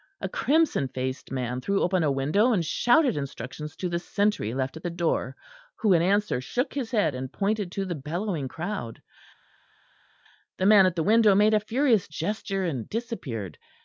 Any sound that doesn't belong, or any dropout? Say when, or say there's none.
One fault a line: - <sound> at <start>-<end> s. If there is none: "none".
none